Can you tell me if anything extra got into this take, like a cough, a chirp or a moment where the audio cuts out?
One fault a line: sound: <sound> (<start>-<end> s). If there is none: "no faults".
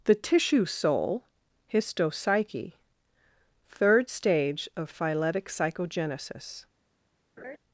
sound: laugh (7.4-7.6 s)